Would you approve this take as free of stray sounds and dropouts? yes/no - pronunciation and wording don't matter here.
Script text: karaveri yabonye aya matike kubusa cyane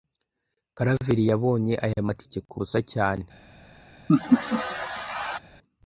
no